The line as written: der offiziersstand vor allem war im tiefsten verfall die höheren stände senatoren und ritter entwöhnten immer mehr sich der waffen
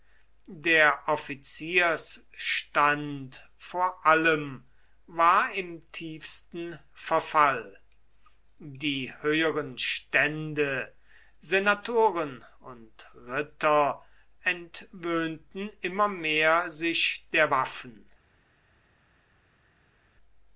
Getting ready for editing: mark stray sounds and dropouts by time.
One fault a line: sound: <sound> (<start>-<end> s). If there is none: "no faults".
no faults